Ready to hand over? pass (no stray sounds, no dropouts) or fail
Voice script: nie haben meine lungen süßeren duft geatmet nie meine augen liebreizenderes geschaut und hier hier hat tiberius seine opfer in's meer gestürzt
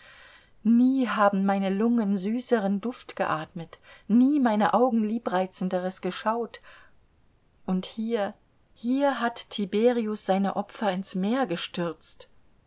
pass